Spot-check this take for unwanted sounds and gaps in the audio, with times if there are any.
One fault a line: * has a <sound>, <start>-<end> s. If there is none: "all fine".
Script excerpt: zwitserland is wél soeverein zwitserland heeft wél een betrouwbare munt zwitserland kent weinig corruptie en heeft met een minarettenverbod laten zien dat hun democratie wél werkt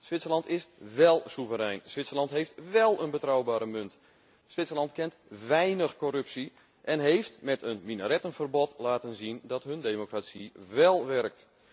all fine